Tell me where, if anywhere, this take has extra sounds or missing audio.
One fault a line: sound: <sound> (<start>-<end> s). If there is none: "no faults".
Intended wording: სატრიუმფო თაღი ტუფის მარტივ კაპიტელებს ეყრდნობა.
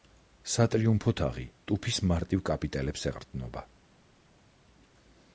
no faults